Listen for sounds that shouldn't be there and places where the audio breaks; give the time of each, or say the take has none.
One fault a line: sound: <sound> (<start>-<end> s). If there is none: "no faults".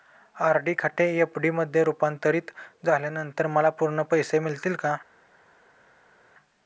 no faults